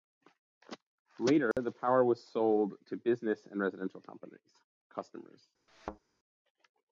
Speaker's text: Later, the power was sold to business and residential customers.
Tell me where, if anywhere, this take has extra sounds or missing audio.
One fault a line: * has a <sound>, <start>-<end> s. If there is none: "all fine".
* has a dropout, 1.5-1.6 s
* has a thud, 5.7-6.0 s